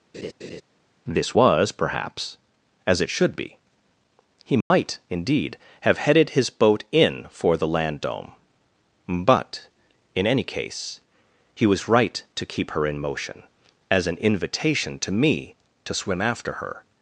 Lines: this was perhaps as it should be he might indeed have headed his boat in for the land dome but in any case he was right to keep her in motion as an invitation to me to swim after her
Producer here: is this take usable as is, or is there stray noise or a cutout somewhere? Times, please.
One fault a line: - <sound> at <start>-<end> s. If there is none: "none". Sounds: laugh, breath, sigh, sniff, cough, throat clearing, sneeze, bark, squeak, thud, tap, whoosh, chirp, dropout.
- laugh at 0.1-0.6 s
- dropout at 4.6-4.7 s